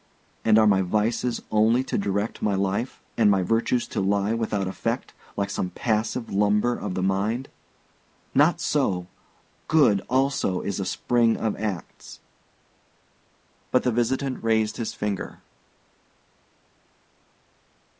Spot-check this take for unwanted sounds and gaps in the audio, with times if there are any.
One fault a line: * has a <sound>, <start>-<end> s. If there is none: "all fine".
all fine